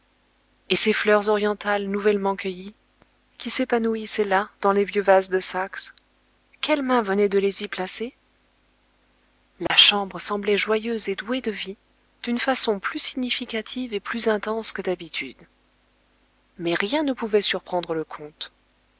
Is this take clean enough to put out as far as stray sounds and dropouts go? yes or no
no